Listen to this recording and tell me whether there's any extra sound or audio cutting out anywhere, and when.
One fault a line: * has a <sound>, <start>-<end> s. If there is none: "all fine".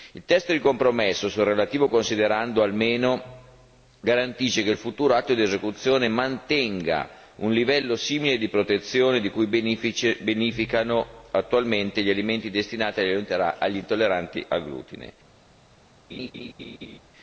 * has a laugh, 16.1-17.0 s